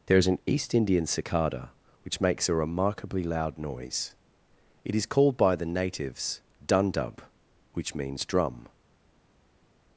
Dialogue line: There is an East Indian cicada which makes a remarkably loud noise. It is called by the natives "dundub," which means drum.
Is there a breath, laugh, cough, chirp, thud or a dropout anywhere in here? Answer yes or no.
no